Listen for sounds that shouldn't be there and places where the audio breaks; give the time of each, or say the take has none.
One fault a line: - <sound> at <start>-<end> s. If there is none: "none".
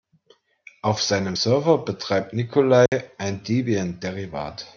- dropout at 2.9-2.9 s